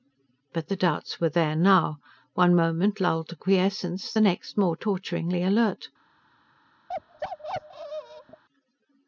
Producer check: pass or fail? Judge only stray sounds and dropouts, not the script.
fail